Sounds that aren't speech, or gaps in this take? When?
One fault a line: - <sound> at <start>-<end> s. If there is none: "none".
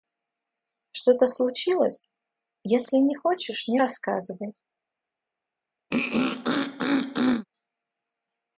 - throat clearing at 5.9-7.5 s